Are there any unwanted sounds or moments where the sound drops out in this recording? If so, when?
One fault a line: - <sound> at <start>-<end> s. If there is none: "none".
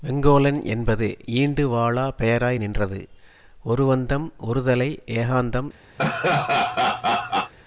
- laugh at 6.0-7.5 s